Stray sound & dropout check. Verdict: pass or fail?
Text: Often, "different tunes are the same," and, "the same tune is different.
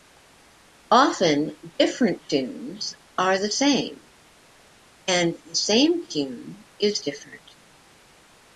pass